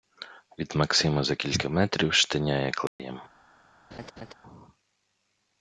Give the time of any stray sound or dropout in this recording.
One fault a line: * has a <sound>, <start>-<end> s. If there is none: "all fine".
* has a dropout, 2.9-3.0 s
* has a laugh, 3.9-4.3 s